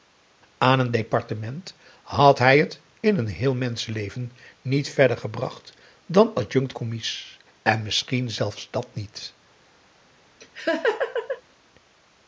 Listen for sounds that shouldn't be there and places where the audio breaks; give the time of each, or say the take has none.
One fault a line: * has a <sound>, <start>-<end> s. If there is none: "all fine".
* has a laugh, 10.4-11.4 s